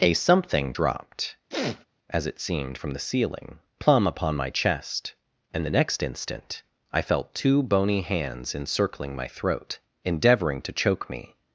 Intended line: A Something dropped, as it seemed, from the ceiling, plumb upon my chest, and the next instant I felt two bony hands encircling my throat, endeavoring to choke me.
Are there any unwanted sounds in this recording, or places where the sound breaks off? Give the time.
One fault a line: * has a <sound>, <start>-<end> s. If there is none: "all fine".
* has a sniff, 1.5-1.9 s